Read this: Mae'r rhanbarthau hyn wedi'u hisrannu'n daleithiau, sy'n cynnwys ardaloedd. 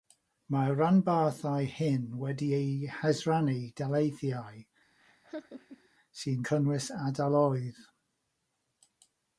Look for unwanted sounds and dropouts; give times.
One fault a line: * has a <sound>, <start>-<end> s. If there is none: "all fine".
* has a laugh, 5.0-5.9 s